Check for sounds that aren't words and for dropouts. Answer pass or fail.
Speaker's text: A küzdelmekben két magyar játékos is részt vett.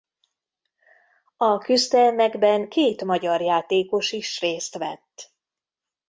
pass